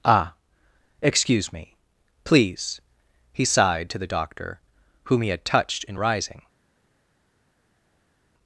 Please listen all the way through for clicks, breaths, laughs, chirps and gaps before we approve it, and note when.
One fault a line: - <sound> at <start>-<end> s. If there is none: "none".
none